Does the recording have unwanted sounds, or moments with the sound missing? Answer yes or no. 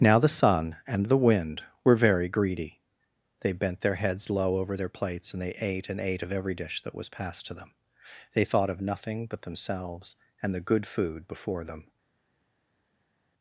no